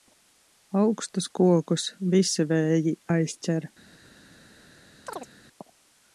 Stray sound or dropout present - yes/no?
yes